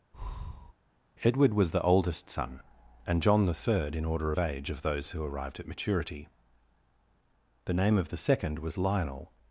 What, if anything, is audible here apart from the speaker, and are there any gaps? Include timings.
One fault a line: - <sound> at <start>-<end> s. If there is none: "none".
- breath at 0.1-0.7 s